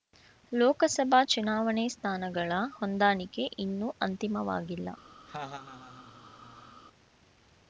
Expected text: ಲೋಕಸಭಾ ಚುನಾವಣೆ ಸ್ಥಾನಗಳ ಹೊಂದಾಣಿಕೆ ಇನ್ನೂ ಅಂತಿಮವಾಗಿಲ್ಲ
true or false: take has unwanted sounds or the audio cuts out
true